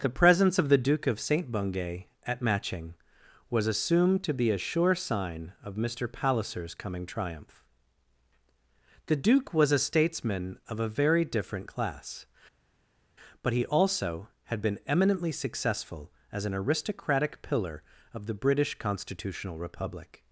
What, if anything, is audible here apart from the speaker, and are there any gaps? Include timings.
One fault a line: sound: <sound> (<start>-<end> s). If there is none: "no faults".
no faults